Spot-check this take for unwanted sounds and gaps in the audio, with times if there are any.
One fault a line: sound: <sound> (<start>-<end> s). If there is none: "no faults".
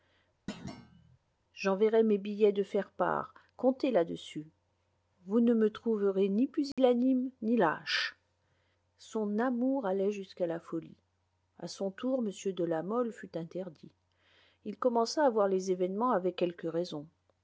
sound: thud (0.5-1.2 s)
sound: dropout (6.7-6.8 s)